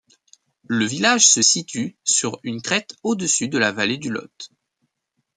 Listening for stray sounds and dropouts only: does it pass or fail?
pass